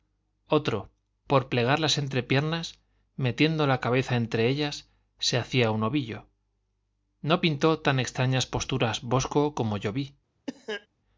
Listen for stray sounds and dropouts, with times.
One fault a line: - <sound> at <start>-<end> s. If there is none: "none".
- cough at 10.5-10.9 s